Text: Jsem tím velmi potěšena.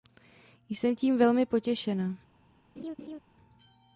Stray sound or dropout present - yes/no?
yes